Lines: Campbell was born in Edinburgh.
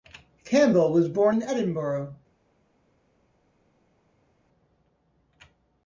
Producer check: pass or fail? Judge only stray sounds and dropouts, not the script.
pass